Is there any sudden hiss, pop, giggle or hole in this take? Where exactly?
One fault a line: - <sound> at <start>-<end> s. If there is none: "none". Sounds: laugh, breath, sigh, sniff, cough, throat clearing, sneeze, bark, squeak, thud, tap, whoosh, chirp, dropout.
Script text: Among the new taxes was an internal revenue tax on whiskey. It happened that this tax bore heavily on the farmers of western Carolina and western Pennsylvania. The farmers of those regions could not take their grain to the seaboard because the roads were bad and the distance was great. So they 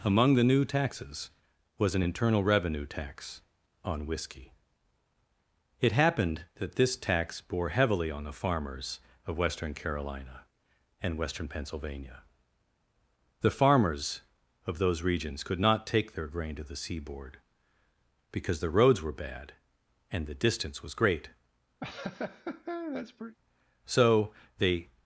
- laugh at 21.8-23.4 s